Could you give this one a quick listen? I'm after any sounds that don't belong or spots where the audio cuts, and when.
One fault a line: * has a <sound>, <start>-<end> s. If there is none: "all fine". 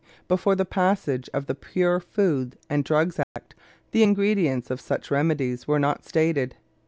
* has a dropout, 3.2-3.4 s